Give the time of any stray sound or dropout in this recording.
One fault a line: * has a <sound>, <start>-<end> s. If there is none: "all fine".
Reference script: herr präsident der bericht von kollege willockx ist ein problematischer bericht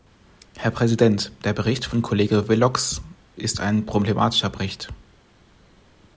all fine